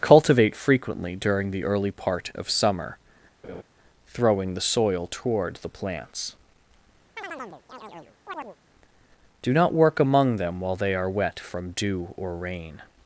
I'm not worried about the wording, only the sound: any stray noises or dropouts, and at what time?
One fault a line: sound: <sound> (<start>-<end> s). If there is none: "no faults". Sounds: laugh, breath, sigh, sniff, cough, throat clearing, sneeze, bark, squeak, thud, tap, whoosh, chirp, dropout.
sound: laugh (3.4-3.6 s)
sound: chirp (7.2-8.6 s)